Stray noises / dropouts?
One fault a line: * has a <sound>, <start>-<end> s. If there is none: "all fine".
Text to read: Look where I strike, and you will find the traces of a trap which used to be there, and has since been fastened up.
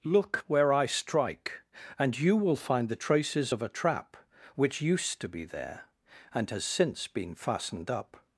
all fine